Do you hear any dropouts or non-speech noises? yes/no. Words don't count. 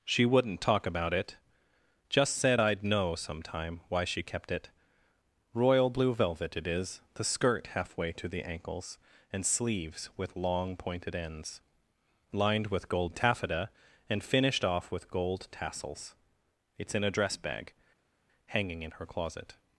no